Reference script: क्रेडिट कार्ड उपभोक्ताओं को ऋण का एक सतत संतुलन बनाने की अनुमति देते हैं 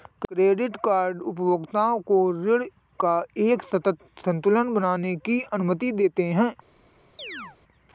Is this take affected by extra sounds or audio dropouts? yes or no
yes